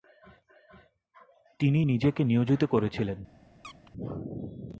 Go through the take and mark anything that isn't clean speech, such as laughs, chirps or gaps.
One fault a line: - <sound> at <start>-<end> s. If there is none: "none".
- squeak at 3.6-3.9 s